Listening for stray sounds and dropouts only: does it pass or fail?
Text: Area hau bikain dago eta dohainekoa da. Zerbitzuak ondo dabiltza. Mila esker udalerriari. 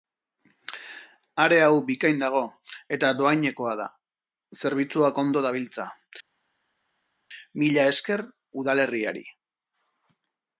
pass